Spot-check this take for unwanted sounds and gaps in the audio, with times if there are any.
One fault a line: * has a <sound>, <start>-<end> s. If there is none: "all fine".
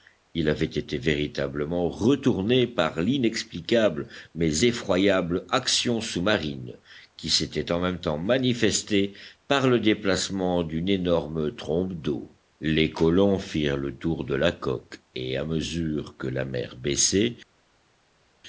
all fine